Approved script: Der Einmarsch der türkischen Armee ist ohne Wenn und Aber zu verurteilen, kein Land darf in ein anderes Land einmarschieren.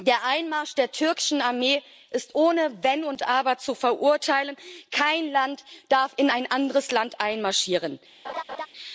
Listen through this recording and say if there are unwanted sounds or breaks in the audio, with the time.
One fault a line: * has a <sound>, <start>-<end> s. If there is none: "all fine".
* has a laugh, 8.2-8.7 s